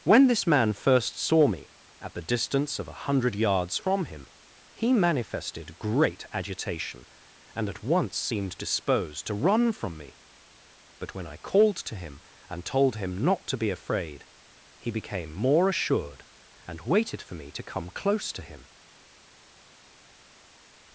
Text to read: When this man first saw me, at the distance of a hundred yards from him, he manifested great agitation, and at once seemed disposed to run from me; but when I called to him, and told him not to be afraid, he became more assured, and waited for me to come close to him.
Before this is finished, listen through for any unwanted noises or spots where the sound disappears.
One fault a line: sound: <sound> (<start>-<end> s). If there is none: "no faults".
no faults